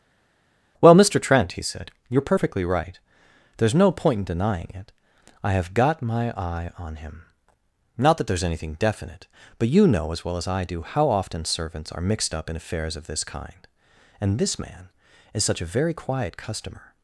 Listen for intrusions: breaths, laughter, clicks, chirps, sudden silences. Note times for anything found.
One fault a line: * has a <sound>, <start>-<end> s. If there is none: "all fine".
all fine